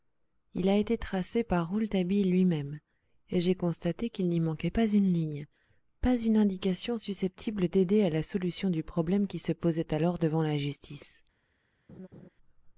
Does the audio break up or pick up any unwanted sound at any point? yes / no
yes